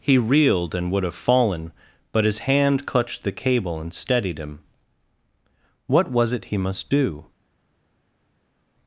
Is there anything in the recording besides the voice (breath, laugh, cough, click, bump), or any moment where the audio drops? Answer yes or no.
no